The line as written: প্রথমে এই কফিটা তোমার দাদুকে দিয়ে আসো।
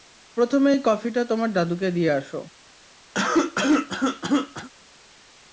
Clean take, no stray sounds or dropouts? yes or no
no